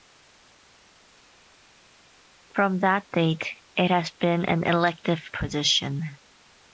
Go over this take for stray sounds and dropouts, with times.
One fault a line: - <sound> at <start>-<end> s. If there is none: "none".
none